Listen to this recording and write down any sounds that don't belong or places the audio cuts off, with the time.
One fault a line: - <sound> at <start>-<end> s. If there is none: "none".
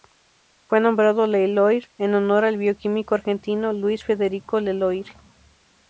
none